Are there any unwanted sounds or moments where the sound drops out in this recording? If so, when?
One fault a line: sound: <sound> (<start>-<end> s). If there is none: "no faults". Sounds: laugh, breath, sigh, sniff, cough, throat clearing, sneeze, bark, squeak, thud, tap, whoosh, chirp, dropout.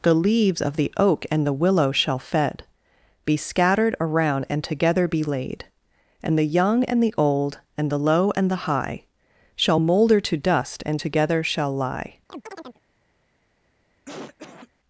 sound: chirp (12.3-12.8 s)
sound: cough (14.1-14.7 s)